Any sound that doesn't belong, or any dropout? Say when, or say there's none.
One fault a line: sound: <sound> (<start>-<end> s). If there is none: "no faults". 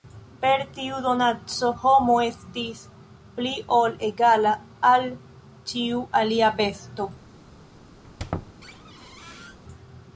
sound: squeak (8.0-9.6 s)